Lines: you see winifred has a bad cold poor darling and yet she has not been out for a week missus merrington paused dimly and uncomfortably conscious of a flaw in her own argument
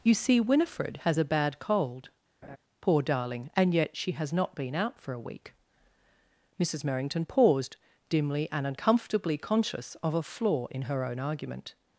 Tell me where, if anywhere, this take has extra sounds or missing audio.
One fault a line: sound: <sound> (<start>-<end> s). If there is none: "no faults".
sound: laugh (2.4-2.6 s)